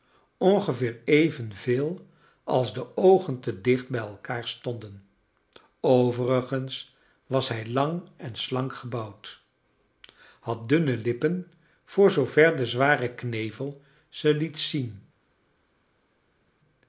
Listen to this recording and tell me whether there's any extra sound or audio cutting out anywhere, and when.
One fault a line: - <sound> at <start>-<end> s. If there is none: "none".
none